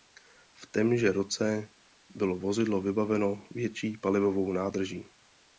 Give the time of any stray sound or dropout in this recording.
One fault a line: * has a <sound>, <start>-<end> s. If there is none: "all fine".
all fine